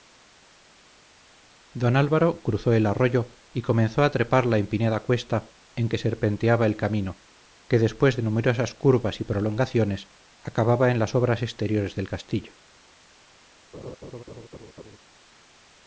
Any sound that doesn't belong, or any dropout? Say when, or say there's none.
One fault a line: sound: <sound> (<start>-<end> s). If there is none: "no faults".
sound: laugh (13.7-15.0 s)